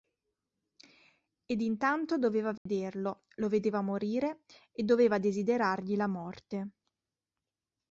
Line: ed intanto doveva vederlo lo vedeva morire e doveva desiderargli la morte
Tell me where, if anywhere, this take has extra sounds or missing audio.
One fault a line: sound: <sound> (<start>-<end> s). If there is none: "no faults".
sound: dropout (2.6-2.7 s)